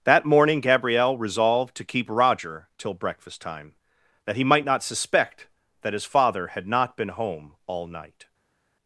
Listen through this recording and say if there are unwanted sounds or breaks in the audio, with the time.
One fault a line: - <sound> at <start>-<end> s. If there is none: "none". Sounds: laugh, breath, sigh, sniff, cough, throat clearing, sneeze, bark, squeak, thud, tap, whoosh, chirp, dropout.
none